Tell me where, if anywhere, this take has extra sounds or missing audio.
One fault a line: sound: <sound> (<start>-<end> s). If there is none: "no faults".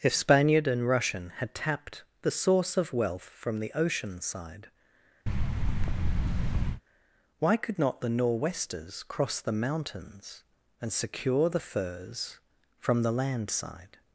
sound: thud (5.3-6.8 s)